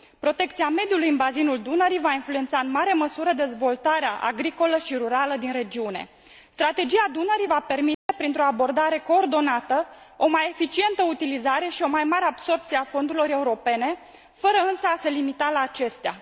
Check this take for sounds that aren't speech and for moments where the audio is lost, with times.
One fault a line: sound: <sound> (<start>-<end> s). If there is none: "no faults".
sound: dropout (7.9-8.1 s)